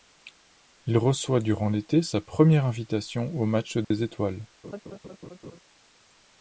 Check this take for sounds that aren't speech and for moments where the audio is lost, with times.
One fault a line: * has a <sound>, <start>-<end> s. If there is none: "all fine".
* has a dropout, 3.8-3.9 s
* has a laugh, 4.6-5.6 s